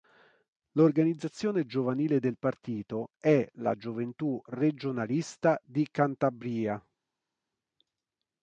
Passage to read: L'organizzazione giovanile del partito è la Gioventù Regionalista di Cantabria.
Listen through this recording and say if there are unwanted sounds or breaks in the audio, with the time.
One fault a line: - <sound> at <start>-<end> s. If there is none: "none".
none